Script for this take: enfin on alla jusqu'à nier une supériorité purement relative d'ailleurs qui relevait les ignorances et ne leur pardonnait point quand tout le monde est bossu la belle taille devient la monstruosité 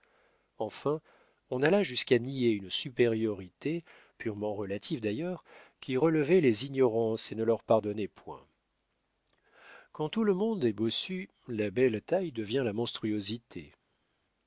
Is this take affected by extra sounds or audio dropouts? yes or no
no